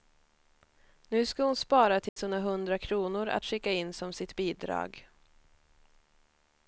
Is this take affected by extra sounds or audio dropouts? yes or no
yes